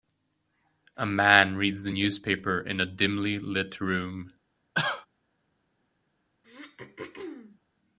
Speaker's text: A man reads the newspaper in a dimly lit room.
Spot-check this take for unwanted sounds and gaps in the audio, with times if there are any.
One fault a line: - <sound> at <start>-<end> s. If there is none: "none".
- cough at 4.7-5.1 s
- throat clearing at 6.4-7.6 s